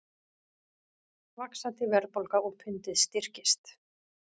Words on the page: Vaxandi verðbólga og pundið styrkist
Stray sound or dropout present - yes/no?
no